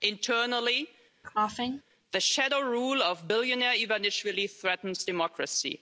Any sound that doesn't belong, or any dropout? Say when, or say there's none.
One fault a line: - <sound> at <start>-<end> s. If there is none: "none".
- cough at 1.2-1.8 s